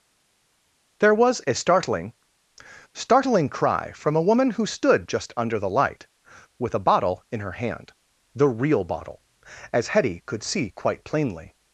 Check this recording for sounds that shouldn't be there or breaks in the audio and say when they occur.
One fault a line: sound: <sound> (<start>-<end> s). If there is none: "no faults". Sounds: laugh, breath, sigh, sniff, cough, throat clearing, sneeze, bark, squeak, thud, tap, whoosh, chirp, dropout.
no faults